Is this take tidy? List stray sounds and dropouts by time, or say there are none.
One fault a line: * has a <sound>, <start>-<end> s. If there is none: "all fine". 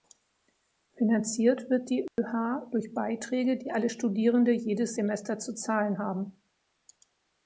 * has a dropout, 2.1-2.2 s